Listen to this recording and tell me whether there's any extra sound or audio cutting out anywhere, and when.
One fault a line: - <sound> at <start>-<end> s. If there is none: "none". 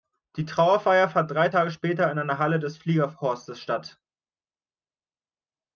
none